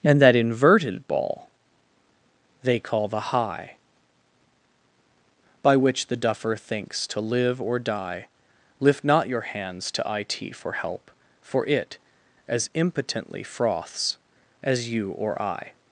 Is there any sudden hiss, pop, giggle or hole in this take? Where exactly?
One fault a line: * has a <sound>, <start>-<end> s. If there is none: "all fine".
all fine